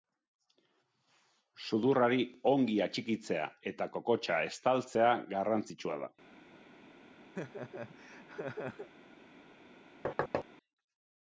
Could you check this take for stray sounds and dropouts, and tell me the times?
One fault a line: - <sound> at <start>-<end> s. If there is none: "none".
- laugh at 7.4-8.9 s
- thud at 10.0-10.4 s